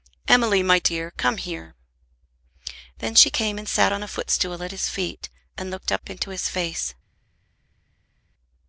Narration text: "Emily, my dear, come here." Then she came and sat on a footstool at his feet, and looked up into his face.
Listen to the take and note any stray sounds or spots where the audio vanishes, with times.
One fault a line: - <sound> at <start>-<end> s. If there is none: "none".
none